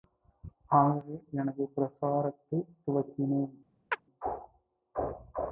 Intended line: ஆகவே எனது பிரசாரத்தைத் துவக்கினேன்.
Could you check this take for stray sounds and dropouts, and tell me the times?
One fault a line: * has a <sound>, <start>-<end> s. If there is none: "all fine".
* has a chirp, 3.9-4.0 s